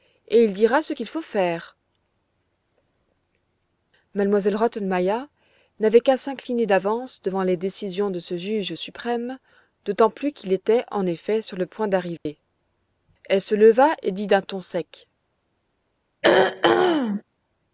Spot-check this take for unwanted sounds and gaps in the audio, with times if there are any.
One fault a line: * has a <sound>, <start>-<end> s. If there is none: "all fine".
* has a dropout, 12.2-12.3 s
* has a throat clearing, 16.2-17.2 s